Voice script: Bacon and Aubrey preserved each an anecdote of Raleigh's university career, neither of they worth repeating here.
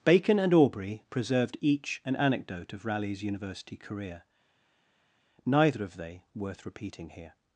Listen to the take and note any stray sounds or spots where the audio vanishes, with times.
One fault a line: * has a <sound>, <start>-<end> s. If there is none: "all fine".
all fine